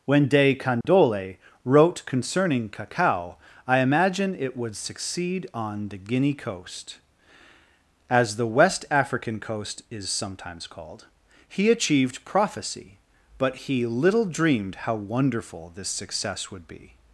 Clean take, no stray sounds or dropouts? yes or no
no